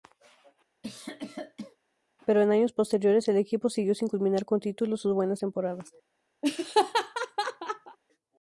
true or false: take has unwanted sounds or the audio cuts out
true